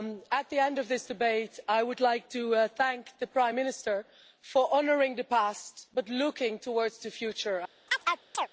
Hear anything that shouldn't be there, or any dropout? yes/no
yes